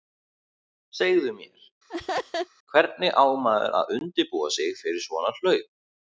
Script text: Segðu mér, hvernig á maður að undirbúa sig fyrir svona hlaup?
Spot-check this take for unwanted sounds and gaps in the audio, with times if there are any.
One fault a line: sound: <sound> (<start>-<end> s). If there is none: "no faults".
sound: laugh (1.9-2.5 s)